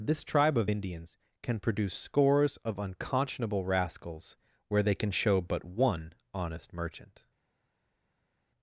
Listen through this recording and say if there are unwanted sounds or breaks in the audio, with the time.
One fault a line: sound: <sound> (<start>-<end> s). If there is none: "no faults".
no faults